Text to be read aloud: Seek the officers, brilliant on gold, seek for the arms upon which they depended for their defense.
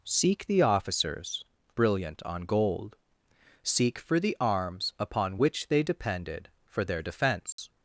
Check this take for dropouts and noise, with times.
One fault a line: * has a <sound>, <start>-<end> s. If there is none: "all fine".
* has a dropout, 7.5-7.6 s